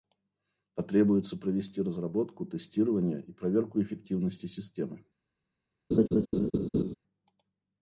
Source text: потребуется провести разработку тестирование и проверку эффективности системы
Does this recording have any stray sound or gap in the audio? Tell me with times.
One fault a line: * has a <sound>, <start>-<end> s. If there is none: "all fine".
* has a laugh, 5.9-6.9 s